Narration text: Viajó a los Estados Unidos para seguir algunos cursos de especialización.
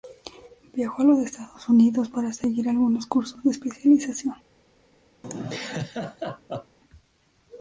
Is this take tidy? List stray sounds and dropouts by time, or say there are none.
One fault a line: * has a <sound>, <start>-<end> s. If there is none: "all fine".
* has a laugh, 5.2-6.8 s